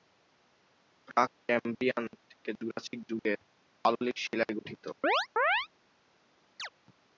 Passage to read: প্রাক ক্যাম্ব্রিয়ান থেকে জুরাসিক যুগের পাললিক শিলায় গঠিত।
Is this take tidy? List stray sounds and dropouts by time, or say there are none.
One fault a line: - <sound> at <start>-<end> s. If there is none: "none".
- chirp at 5.0-5.7 s
- chirp at 6.6-6.7 s